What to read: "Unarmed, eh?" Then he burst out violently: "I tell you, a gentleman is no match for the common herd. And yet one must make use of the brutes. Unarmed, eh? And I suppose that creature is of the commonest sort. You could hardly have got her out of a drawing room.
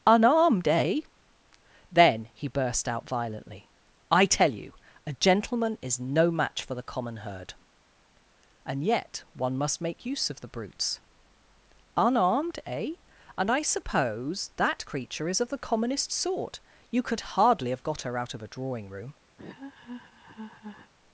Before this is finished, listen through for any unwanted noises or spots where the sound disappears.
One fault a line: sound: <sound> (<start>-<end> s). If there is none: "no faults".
sound: laugh (19.4-20.9 s)